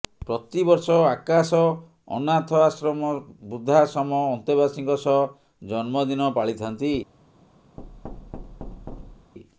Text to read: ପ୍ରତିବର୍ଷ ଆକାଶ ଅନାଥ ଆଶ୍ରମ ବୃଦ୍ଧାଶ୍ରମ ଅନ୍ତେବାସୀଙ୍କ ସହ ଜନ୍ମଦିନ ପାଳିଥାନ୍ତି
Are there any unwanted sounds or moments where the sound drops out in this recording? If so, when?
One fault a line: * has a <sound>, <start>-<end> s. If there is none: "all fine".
* has a thud, 7.8-9.3 s